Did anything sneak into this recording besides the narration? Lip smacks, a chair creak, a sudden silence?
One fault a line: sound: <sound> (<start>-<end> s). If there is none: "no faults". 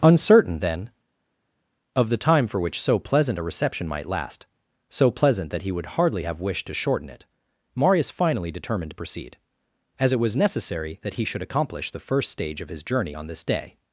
no faults